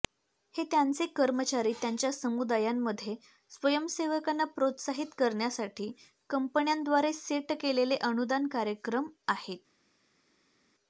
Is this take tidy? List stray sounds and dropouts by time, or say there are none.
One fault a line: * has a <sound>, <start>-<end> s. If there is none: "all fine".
all fine